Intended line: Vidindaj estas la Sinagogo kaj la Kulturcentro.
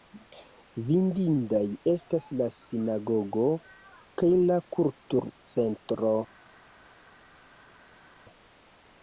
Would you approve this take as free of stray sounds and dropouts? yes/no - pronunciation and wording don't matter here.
yes